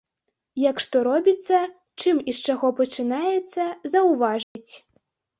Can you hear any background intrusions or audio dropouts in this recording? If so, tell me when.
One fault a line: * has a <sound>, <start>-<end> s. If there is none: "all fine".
* has a dropout, 4.4-4.6 s